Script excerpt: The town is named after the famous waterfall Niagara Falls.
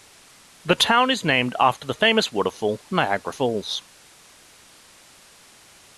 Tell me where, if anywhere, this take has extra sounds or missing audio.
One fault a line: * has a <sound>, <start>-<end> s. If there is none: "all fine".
all fine